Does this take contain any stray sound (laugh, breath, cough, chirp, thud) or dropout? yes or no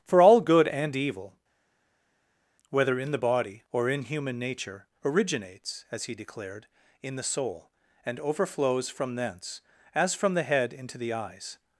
no